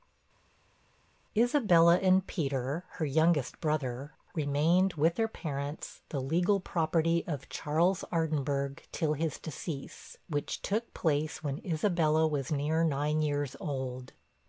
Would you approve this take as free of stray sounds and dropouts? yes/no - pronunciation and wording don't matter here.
yes